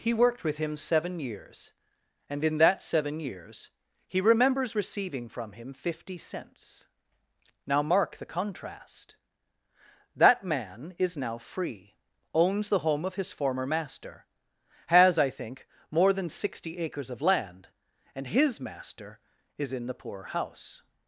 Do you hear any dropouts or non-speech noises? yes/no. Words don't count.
no